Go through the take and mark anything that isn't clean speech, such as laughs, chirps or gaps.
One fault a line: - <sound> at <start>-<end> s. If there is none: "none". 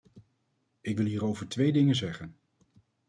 none